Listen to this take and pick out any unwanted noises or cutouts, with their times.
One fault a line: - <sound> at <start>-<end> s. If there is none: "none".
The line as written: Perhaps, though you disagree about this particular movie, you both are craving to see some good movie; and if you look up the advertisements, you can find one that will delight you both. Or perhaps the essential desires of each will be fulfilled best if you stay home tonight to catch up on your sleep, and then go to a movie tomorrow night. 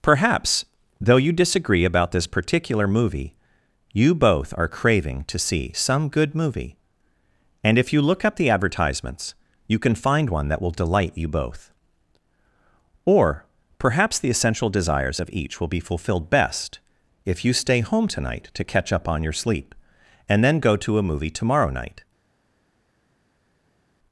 none